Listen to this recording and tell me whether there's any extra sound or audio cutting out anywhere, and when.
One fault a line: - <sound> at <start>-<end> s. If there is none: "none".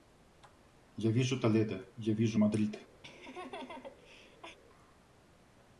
- laugh at 3.0-4.6 s